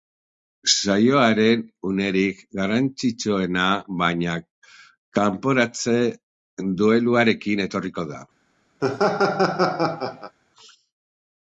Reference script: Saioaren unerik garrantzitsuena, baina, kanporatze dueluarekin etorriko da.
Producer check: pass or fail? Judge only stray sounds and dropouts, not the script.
fail